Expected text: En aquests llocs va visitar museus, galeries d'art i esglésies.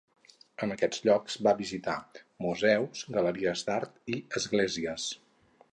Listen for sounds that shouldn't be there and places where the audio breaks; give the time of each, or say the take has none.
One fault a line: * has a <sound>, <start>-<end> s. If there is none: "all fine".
all fine